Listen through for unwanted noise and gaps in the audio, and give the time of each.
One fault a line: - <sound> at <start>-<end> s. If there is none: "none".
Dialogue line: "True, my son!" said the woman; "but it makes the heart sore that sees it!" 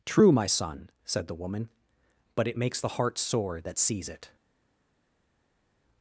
none